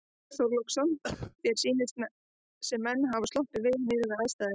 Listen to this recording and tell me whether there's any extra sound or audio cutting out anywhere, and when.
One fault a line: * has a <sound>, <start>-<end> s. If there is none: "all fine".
* has a cough, 1.0-1.4 s